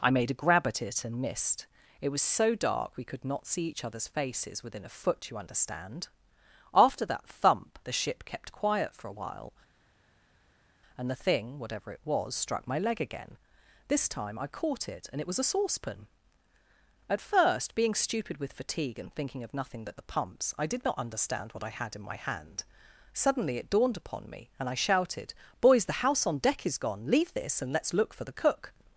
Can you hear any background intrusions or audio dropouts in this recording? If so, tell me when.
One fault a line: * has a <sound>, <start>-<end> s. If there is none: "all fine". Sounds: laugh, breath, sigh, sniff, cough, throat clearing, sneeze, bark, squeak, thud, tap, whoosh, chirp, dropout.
all fine